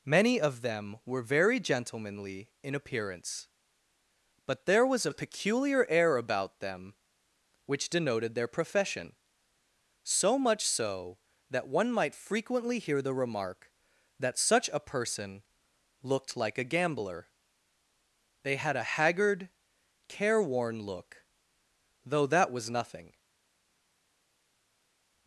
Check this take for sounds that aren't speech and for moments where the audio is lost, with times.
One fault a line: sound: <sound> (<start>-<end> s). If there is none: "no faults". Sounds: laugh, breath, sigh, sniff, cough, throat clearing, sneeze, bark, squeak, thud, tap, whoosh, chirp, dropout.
no faults